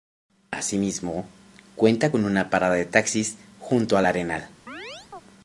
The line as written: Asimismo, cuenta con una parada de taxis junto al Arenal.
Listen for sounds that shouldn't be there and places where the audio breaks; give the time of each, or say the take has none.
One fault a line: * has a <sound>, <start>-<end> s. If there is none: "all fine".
* has a chirp, 4.7-5.2 s